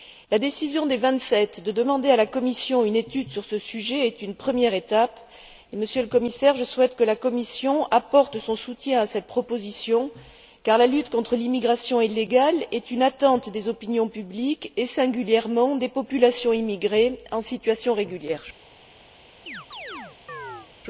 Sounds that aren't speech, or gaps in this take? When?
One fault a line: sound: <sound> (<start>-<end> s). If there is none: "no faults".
sound: chirp (19.5-20.7 s)